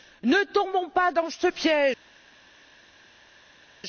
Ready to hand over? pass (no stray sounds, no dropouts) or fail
pass